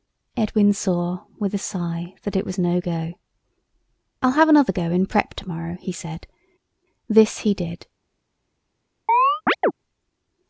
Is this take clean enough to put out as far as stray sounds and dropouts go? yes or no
no